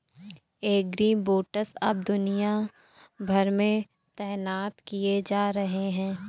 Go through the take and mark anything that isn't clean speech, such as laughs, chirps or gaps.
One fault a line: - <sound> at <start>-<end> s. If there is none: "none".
none